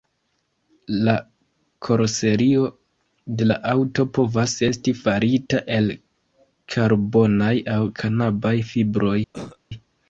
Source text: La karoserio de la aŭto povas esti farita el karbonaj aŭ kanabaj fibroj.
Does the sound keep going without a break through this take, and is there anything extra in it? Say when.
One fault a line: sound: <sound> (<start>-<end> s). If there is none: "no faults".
sound: cough (9.3-9.6 s)